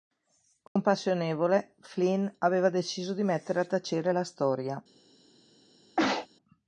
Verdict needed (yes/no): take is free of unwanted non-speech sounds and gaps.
no